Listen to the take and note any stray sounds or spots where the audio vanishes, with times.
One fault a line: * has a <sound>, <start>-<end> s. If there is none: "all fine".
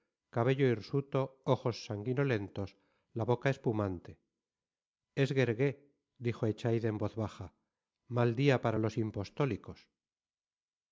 all fine